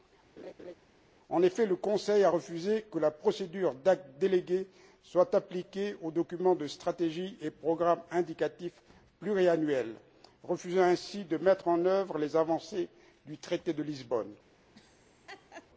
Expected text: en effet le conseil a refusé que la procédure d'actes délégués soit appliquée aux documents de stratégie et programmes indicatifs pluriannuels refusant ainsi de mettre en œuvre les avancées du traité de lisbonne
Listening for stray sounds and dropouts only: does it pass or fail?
fail